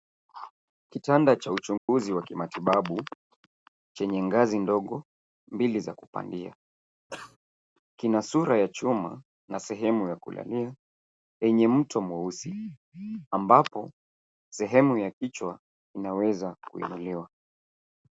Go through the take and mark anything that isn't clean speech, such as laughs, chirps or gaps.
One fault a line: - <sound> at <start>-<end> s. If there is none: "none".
- dropout at 1.8-1.9 s
- cough at 7.1-7.4 s